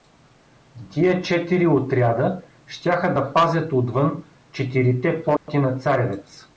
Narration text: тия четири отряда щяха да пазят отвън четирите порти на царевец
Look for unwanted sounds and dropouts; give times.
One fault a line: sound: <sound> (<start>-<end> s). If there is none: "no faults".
sound: dropout (5.4-5.5 s)